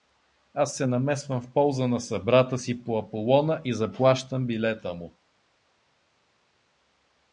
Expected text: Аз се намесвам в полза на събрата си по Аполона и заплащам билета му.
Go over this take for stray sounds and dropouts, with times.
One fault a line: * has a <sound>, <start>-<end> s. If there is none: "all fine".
all fine